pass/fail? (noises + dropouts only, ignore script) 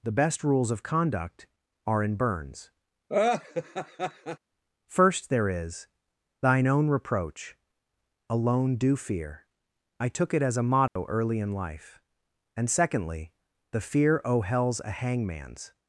fail